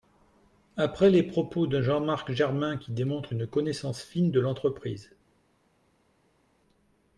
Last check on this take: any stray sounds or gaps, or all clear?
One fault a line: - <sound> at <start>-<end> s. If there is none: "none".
none